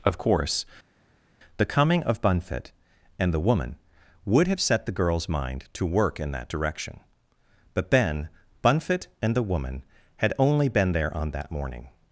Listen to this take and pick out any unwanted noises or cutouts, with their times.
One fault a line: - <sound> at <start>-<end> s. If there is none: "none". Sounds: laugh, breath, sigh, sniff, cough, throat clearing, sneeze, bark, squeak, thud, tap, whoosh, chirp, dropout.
none